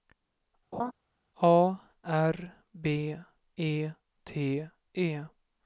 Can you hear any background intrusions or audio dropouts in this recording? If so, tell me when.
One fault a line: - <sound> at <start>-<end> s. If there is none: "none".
- laugh at 0.7-0.9 s